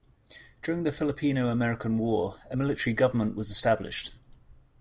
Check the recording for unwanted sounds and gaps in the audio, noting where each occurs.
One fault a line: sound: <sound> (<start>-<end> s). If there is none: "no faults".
no faults